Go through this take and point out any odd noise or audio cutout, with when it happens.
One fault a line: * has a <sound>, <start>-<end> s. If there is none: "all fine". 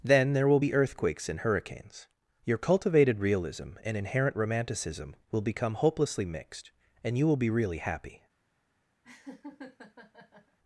* has a laugh, 9.0-10.6 s